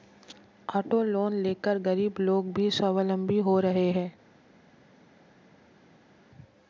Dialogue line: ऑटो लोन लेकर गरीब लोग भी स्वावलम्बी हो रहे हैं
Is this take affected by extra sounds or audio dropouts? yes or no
no